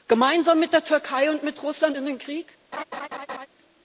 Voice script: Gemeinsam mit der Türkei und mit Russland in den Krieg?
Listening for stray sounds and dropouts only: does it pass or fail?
fail